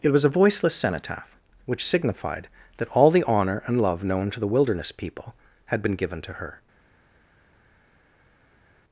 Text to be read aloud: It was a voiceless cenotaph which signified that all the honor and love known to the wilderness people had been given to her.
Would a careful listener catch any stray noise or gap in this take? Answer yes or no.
no